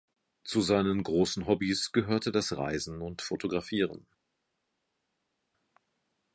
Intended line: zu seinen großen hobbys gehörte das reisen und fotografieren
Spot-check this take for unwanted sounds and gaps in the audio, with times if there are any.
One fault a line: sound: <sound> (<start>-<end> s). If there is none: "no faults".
no faults